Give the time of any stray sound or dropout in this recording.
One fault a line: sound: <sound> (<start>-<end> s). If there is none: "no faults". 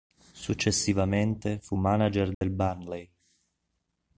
sound: dropout (2.3-2.4 s)